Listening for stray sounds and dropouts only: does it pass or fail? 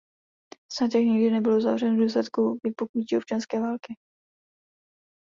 pass